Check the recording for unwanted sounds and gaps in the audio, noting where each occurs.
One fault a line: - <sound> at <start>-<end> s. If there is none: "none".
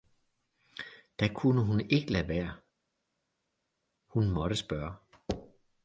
none